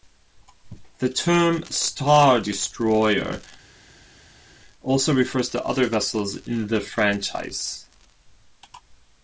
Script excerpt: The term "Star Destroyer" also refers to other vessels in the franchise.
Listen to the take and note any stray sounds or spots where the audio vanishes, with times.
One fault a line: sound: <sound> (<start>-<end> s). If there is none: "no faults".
no faults